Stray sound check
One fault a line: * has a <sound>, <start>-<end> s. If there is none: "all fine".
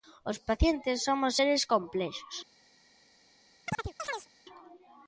* has a chirp, 3.7-4.3 s